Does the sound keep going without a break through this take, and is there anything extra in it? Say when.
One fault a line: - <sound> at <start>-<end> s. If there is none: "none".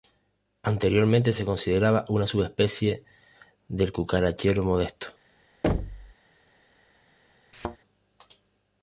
- thud at 5.6-6.1 s
- thud at 7.5-7.8 s